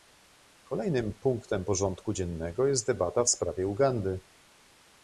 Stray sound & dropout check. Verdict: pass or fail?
pass